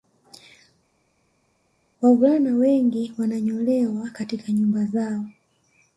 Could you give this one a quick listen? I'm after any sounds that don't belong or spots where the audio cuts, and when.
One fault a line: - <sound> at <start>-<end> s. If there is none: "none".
none